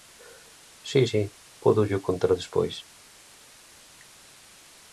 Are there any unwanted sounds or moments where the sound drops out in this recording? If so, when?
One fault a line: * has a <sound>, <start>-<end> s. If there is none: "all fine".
all fine